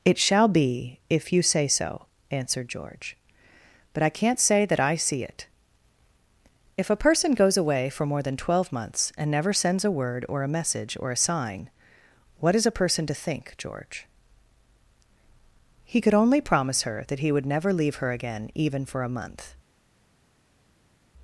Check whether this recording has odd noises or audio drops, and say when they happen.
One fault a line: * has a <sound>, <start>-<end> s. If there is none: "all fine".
all fine